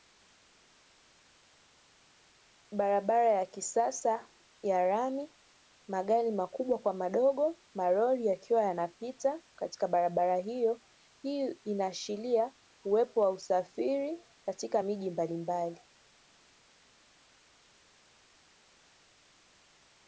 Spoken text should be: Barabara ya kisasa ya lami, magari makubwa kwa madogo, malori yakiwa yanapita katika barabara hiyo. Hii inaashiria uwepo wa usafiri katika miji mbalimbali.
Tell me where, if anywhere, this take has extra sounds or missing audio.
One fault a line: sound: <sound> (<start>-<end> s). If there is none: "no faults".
no faults